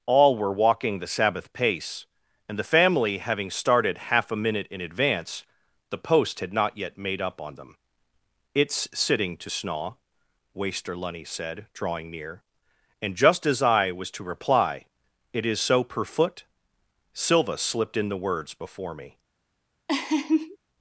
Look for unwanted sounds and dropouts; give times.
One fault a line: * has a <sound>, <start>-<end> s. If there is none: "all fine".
* has a laugh, 19.9-20.6 s